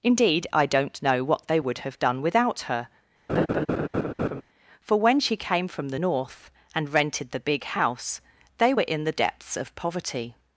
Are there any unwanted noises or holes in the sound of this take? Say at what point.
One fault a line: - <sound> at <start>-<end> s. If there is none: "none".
- laugh at 3.3-4.4 s